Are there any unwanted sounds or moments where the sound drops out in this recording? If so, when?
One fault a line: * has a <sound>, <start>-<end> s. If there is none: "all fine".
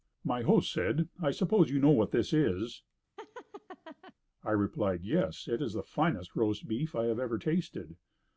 * has a laugh, 3.2-4.1 s